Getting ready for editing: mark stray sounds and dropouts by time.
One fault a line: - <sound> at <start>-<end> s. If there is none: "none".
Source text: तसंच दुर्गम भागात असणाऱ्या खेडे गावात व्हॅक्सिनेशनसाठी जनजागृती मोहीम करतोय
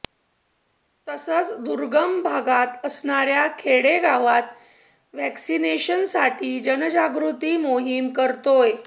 none